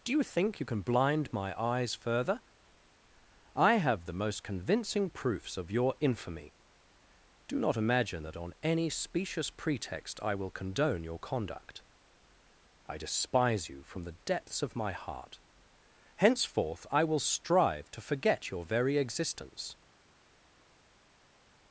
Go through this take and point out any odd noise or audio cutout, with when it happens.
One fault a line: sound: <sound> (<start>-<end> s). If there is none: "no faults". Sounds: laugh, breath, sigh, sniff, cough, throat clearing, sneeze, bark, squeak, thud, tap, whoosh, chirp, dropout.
no faults